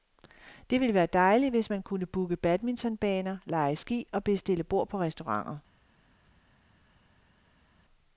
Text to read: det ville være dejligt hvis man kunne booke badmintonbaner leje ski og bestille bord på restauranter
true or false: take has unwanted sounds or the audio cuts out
false